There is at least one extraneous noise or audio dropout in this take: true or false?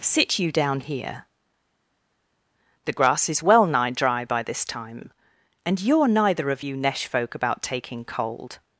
false